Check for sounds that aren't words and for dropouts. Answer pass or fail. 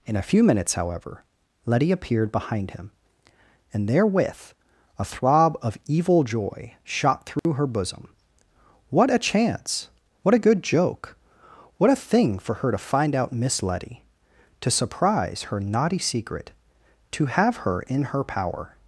fail